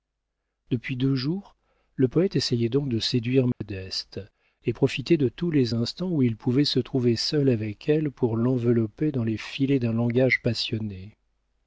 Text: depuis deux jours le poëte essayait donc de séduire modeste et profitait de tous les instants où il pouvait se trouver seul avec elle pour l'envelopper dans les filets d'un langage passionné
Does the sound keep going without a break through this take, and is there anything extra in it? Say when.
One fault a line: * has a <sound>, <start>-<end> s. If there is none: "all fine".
* has a dropout, 3.5-3.6 s